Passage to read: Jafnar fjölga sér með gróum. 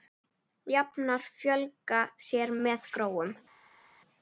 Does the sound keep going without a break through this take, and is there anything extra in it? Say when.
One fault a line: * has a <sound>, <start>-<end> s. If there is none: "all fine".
all fine